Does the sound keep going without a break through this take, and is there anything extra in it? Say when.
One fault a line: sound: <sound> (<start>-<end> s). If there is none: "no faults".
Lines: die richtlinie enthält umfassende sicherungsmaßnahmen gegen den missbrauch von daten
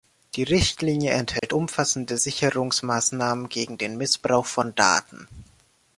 sound: dropout (1.4-1.4 s)